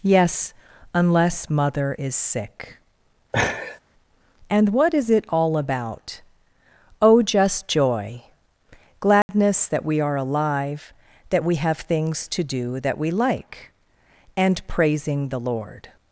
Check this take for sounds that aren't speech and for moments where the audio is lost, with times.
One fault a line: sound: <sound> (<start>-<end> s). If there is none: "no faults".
sound: laugh (3.3-3.8 s)
sound: dropout (9.2-9.3 s)